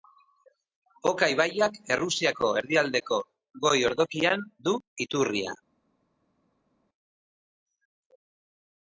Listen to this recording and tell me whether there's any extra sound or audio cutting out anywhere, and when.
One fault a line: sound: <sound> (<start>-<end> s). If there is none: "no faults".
no faults